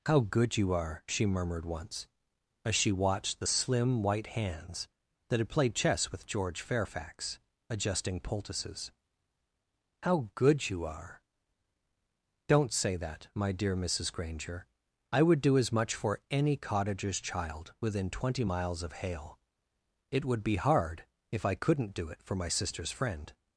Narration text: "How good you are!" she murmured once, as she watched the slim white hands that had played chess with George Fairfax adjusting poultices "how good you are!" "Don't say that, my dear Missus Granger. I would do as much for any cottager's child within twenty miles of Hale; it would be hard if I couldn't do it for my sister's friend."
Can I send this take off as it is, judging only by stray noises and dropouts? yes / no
yes